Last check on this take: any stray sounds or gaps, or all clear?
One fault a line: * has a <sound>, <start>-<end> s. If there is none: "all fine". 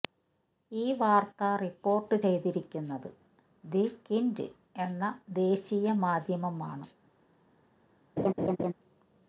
* has a laugh, 8.2-8.7 s